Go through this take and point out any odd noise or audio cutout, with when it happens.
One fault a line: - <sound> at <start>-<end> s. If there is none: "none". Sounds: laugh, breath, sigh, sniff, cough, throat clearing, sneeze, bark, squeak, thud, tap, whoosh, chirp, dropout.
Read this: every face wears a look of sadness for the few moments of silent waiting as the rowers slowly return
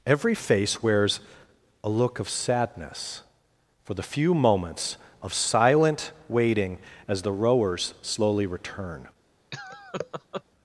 - laugh at 9.5-10.4 s